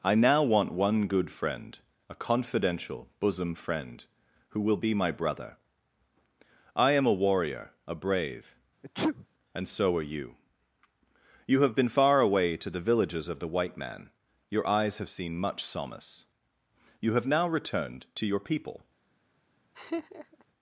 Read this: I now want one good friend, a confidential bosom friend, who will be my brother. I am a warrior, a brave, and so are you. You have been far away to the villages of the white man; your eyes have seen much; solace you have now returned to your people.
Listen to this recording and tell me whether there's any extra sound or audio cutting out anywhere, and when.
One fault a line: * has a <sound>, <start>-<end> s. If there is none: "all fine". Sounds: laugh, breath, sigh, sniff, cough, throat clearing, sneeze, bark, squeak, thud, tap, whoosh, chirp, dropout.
* has a sneeze, 8.8-9.3 s
* has a laugh, 19.7-20.4 s